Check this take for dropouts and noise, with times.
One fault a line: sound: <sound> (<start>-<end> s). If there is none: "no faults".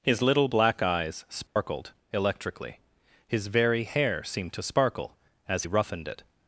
sound: dropout (1.5-1.6 s)